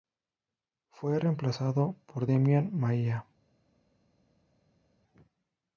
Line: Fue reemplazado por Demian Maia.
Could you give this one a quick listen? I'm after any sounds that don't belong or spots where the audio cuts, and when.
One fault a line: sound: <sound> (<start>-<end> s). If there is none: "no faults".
no faults